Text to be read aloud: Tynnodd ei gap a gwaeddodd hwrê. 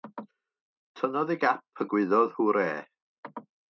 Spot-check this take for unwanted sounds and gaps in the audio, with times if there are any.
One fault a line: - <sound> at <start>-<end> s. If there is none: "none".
none